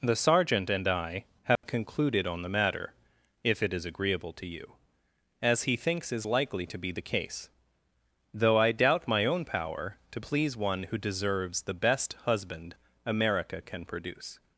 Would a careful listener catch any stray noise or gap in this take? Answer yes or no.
yes